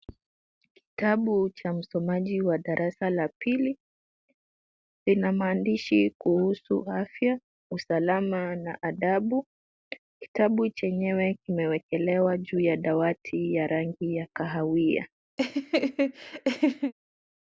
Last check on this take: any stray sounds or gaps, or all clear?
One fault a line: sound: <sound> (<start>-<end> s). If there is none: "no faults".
sound: laugh (15.4-16.9 s)